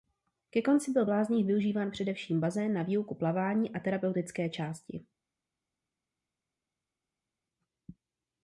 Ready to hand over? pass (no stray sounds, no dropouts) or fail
pass